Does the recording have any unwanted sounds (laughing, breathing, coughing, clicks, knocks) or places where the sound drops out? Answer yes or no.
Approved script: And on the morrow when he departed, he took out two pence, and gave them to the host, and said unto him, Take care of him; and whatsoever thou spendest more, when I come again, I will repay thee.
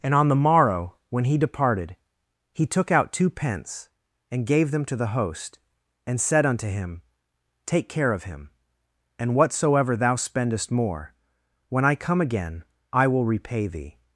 no